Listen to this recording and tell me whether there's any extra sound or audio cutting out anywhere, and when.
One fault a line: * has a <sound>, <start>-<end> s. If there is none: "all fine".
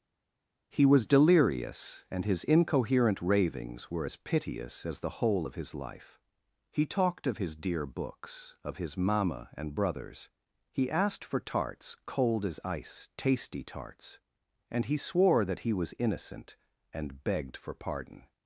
all fine